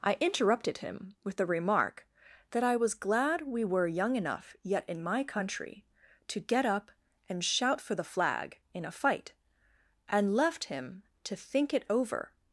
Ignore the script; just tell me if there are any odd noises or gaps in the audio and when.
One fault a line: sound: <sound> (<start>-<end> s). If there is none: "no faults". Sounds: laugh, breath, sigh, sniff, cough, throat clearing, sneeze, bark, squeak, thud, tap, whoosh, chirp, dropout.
no faults